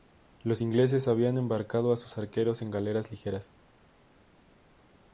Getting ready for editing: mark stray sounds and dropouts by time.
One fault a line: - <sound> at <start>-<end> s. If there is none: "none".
none